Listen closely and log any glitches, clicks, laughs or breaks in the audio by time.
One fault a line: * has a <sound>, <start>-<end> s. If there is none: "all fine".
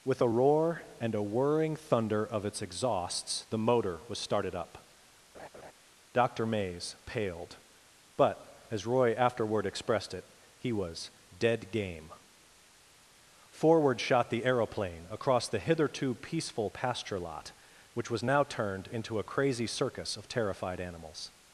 * has a laugh, 5.3-5.7 s